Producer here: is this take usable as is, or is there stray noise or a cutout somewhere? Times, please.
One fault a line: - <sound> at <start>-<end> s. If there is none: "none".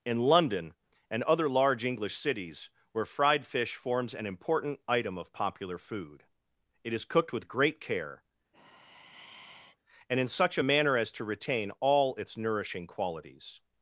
- sigh at 8.5-9.8 s